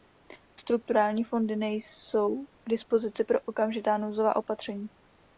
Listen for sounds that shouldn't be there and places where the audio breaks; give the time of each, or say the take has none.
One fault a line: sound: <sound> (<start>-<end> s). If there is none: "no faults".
no faults